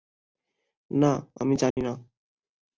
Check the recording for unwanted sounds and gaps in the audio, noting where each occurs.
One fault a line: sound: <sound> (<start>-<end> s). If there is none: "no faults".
sound: dropout (1.7-1.8 s)